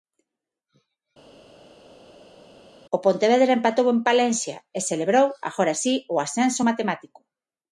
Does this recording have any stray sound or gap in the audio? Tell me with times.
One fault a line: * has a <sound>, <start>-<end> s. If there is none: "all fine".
all fine